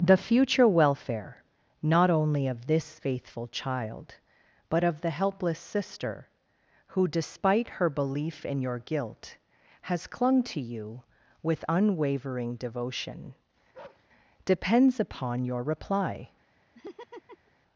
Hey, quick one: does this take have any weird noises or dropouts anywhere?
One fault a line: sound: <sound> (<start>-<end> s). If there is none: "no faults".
sound: bark (13.7-14.1 s)
sound: laugh (16.7-17.5 s)